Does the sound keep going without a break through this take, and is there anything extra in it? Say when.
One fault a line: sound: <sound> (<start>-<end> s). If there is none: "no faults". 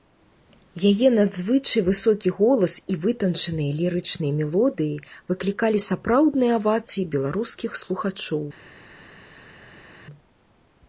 no faults